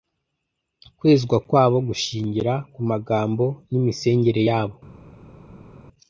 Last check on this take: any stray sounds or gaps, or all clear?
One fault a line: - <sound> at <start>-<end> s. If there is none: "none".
none